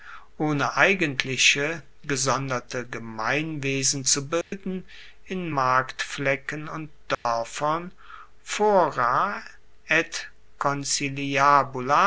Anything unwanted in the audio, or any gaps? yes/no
yes